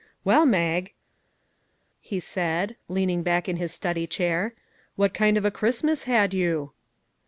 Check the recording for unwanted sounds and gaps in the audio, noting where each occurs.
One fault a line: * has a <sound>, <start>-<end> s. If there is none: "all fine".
all fine